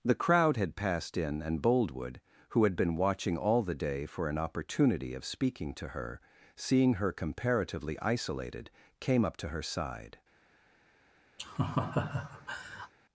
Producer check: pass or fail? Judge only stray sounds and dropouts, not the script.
fail